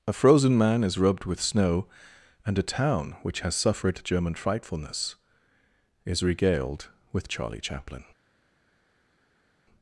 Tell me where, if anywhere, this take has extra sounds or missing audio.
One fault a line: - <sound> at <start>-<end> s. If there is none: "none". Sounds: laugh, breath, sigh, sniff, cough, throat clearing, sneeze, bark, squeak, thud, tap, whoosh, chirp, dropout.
none